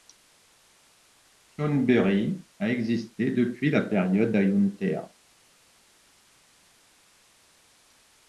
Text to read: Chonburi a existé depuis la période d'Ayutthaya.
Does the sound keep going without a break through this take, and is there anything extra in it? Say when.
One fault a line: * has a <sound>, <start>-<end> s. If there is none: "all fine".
all fine